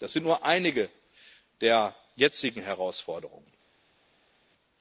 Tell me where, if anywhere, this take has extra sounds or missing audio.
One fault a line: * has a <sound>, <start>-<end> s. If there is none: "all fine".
all fine